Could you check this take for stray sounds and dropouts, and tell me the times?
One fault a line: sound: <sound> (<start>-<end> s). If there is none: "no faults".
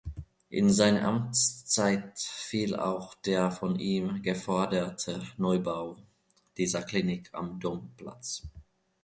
no faults